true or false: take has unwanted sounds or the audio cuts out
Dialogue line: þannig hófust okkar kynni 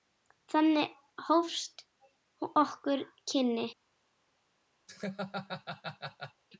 true